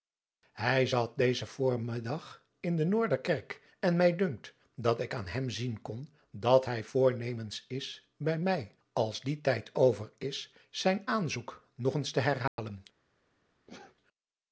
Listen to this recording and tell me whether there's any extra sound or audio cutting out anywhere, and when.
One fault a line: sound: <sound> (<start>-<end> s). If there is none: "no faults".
sound: dropout (12.5-12.6 s)
sound: sneeze (13.7-14.0 s)